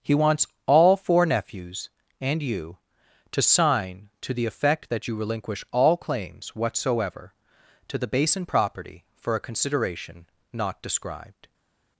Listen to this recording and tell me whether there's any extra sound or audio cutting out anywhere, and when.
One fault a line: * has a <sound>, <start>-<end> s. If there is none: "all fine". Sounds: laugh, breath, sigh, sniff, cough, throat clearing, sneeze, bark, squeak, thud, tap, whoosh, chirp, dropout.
all fine